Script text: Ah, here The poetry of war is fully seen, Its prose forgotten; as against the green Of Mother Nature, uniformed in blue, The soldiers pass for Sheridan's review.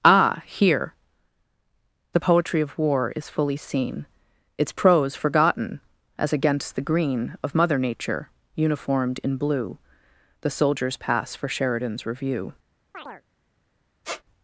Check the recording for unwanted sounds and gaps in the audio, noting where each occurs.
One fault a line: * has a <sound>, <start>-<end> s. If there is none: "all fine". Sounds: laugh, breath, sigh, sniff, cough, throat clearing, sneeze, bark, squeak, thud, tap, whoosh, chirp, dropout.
* has a chirp, 12.9-13.2 s
* has a squeak, 14.0-14.2 s